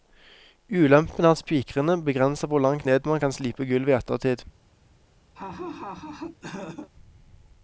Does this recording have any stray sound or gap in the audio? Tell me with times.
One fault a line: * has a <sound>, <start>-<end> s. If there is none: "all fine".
* has a laugh, 5.3-6.9 s